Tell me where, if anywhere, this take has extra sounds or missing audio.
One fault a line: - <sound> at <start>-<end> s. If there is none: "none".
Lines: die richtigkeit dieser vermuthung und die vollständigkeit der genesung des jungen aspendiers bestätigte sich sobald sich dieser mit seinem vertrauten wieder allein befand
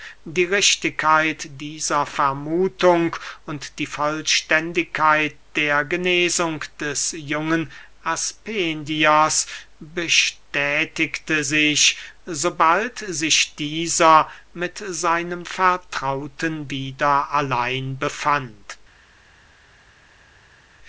none